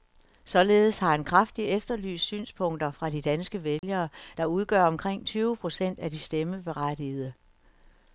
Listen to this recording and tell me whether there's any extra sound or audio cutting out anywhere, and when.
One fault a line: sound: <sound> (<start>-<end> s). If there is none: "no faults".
sound: dropout (3.8-3.8 s)